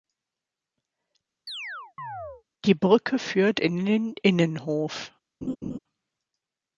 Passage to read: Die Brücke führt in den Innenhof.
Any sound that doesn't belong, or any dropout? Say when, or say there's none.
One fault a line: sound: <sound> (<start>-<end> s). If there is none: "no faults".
sound: chirp (1.5-2.4 s)
sound: laugh (5.4-5.8 s)